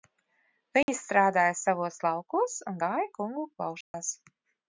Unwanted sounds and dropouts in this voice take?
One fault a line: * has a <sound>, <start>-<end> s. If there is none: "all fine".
* has a dropout, 0.8-0.9 s
* has a dropout, 3.8-3.9 s